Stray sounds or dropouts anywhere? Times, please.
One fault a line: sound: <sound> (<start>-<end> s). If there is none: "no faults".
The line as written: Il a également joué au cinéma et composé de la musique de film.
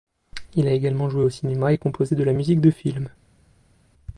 no faults